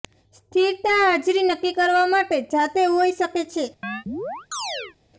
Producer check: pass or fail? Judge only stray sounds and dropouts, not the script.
fail